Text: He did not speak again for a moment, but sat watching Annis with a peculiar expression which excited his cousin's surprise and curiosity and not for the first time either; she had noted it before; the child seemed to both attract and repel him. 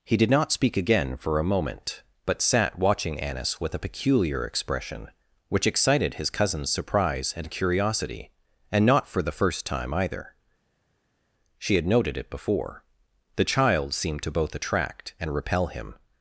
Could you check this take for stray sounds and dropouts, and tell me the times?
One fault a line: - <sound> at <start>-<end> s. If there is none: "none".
none